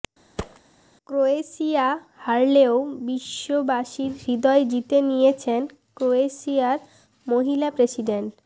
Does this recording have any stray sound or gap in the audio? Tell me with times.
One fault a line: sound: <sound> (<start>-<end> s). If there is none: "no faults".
sound: thud (0.4-0.6 s)